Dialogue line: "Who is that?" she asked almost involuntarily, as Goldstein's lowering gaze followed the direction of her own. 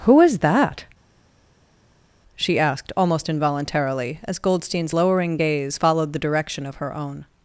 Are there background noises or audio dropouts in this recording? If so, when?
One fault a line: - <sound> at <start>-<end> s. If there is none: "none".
none